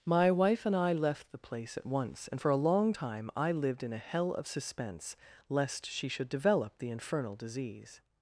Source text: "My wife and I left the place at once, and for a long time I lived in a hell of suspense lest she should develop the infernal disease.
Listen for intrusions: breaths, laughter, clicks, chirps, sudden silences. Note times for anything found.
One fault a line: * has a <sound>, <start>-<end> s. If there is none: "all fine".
all fine